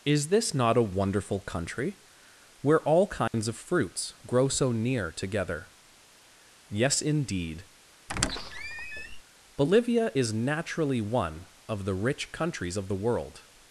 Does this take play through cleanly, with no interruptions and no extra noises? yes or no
no